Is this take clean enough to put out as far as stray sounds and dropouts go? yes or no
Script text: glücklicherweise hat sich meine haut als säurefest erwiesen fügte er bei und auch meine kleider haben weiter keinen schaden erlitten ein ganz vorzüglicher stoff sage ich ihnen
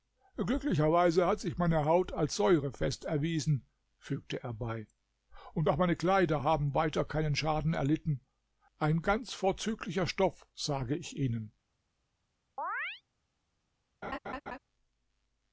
no